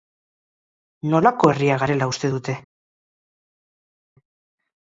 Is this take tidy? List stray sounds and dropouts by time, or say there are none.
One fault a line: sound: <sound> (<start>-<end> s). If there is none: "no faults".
no faults